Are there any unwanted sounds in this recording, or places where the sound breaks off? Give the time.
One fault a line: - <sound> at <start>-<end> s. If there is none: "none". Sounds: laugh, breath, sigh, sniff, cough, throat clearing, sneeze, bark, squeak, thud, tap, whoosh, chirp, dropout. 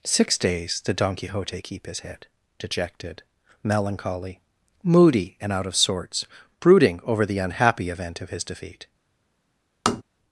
- tap at 9.9-10.0 s